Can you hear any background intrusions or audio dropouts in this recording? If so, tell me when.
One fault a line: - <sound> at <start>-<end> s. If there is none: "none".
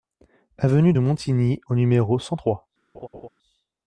- laugh at 2.9-3.3 s